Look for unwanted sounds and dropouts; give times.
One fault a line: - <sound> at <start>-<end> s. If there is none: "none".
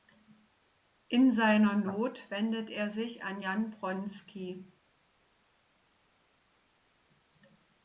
none